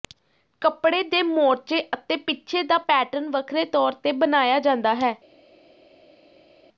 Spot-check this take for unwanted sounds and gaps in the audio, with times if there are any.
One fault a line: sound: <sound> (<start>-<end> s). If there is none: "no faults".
no faults